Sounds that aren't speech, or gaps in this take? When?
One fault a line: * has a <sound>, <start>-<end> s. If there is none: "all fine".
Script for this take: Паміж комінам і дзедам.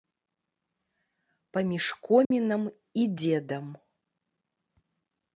* has a dropout, 2.2-2.3 s